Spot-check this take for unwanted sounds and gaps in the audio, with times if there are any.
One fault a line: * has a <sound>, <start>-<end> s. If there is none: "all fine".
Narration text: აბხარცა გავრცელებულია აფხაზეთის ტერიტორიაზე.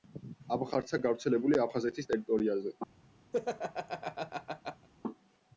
* has a laugh, 3.3-4.9 s